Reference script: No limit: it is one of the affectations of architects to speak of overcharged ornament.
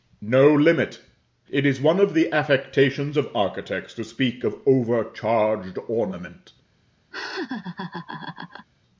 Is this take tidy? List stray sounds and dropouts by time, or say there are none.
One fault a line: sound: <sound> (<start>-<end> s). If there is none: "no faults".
sound: laugh (7.1-8.7 s)